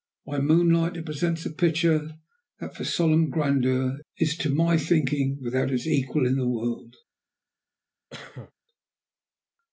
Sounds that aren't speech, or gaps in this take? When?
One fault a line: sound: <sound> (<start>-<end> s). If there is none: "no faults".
sound: cough (8.1-8.5 s)